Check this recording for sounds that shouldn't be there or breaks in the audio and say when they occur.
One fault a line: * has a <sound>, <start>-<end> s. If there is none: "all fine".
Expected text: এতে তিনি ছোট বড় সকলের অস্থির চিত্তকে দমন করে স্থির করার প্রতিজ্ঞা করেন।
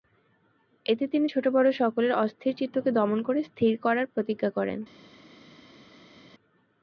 all fine